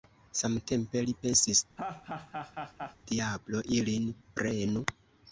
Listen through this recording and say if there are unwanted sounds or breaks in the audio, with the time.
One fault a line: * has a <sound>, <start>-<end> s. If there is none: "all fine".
* has a laugh, 1.8-3.0 s